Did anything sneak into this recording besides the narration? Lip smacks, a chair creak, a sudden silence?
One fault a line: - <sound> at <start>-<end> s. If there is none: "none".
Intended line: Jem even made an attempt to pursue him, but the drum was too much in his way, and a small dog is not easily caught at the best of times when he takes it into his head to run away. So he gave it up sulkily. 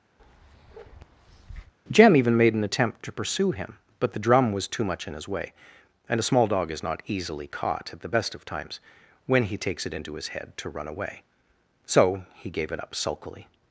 - bark at 0.2-1.7 s